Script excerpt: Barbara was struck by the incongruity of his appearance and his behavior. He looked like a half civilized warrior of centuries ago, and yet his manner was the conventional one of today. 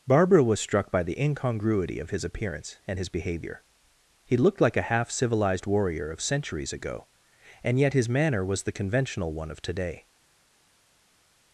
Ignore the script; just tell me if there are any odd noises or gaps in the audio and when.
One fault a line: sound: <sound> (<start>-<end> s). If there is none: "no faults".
no faults